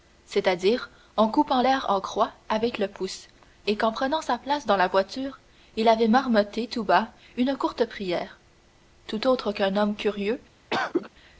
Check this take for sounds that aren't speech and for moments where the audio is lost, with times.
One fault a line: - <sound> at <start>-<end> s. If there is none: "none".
- cough at 10.7-11.1 s